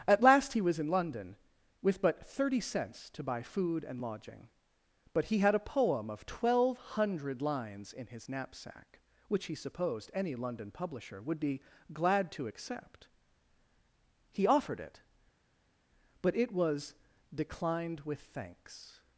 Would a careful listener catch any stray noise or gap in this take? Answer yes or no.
no